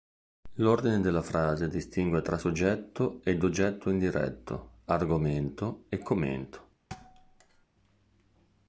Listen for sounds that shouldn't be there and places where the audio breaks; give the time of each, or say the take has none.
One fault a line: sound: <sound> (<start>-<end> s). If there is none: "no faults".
sound: thud (6.9-7.7 s)